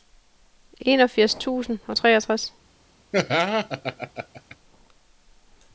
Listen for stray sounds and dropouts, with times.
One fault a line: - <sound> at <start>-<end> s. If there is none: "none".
- laugh at 3.1-4.6 s